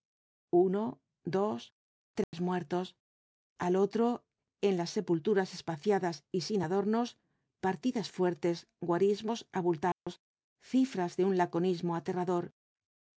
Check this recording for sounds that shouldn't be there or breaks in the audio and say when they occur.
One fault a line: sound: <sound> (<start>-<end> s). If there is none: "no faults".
sound: dropout (2.2-2.3 s)
sound: dropout (9.9-10.1 s)